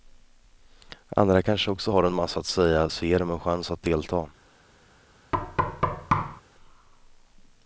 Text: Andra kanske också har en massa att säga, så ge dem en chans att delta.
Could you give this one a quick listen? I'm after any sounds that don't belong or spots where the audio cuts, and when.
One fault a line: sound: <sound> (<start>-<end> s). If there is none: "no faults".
sound: thud (5.3-6.4 s)